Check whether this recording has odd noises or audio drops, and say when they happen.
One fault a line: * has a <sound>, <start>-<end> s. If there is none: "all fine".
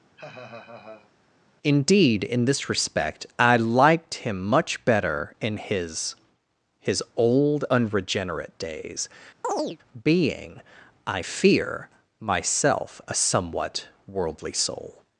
* has a laugh, 0.2-1.1 s
* has a chirp, 9.4-9.8 s